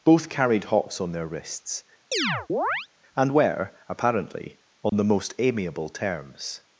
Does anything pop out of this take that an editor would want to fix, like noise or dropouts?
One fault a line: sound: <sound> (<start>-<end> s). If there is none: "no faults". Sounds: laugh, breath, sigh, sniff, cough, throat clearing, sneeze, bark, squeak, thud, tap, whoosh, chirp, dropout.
sound: chirp (2.1-2.9 s)
sound: dropout (4.9-4.9 s)